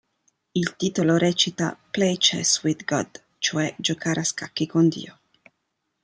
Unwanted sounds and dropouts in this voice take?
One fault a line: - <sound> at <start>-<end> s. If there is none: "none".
none